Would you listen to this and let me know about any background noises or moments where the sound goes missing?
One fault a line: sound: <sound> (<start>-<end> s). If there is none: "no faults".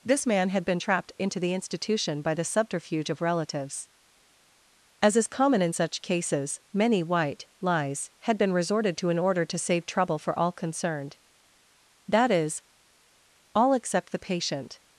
no faults